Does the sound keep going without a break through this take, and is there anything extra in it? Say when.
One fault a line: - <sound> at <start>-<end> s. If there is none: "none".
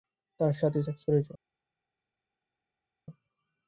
none